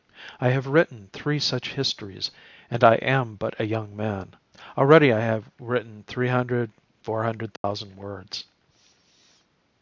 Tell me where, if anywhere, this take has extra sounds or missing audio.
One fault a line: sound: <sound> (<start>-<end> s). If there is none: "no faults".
sound: dropout (7.6-7.6 s)